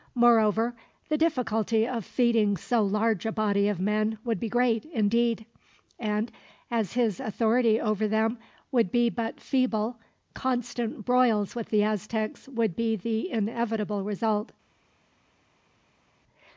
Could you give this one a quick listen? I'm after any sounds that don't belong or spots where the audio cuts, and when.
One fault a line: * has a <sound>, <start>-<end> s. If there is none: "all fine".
all fine